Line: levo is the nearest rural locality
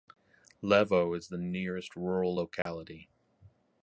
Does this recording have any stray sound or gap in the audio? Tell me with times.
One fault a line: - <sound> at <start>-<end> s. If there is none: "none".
- dropout at 2.6-2.7 s